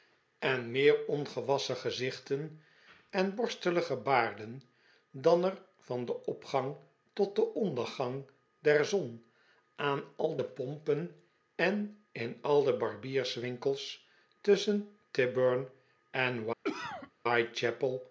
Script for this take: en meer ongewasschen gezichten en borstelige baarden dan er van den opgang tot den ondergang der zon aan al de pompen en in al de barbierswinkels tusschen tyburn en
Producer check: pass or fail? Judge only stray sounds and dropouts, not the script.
fail